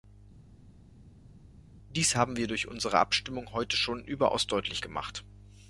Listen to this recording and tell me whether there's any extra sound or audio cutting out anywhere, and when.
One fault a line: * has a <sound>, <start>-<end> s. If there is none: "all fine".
all fine